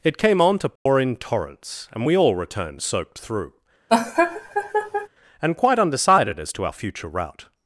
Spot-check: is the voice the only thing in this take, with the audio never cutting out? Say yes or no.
no